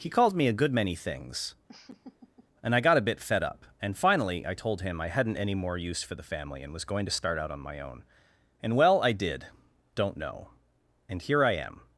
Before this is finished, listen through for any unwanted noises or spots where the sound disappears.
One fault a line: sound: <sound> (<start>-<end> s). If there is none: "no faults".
sound: laugh (1.7-2.5 s)